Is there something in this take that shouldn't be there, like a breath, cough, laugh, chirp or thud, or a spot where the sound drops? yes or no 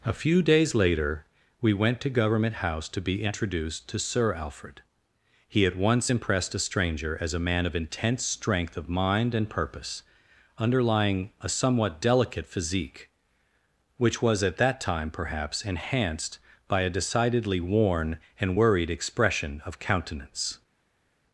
no